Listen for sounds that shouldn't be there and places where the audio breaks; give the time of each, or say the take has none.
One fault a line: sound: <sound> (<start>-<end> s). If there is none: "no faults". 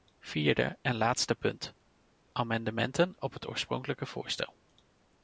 no faults